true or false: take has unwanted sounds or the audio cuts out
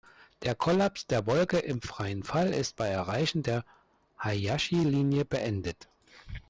false